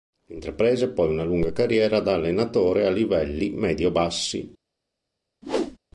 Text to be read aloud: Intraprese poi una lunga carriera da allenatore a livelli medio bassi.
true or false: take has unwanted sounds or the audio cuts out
true